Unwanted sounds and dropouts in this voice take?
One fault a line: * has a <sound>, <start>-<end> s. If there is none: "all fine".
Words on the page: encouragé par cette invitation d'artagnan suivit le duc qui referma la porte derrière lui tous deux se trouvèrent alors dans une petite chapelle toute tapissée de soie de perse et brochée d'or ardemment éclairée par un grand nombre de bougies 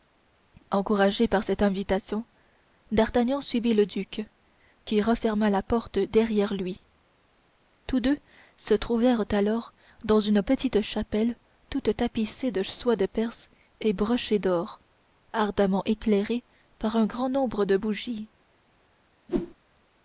* has a whoosh, 19.3-19.6 s